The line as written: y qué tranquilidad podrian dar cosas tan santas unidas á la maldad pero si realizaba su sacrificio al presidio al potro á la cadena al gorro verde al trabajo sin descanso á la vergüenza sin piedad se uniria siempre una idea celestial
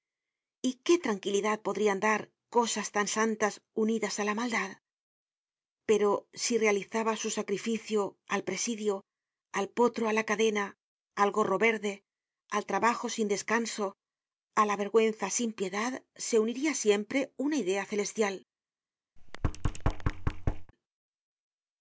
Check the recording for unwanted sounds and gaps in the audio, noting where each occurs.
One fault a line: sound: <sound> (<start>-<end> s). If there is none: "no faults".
sound: thud (19.2-20.7 s)